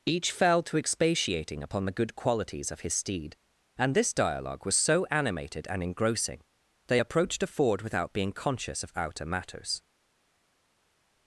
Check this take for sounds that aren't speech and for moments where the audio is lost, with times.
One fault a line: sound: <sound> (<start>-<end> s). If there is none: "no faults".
no faults